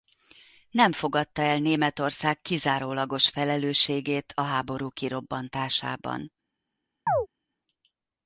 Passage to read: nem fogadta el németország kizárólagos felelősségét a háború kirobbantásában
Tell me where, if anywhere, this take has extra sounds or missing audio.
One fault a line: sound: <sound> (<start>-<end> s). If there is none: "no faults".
sound: chirp (7.1-7.3 s)